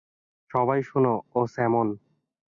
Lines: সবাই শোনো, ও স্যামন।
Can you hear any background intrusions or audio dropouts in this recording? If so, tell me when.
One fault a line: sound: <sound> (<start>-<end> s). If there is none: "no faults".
no faults